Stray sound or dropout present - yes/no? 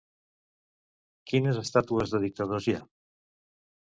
no